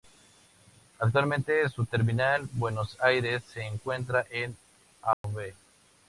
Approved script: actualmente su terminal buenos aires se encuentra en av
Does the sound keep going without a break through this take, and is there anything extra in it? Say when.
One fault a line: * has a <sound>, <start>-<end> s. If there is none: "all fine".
* has a dropout, 5.1-5.2 s